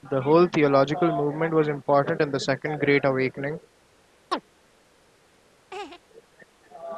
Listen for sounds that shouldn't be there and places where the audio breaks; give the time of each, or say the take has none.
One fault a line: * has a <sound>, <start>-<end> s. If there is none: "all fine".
* has a chirp, 4.3-4.4 s
* has a laugh, 5.7-6.0 s